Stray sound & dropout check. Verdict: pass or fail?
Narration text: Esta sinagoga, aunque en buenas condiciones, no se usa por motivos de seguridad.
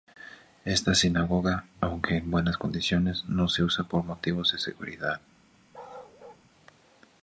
fail